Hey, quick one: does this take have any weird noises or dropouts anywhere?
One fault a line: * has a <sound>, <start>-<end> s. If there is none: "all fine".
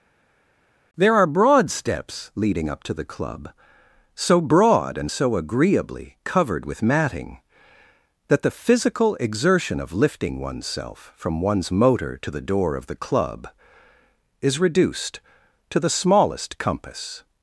all fine